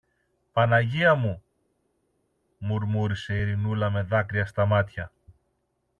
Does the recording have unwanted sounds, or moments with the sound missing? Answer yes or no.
no